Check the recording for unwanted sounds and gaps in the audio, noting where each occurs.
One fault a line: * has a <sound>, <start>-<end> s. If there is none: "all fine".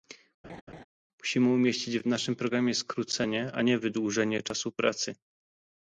* has a laugh, 0.4-0.8 s